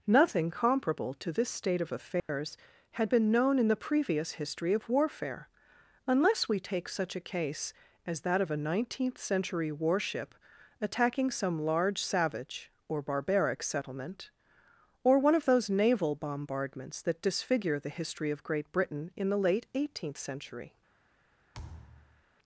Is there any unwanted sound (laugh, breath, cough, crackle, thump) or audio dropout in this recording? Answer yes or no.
yes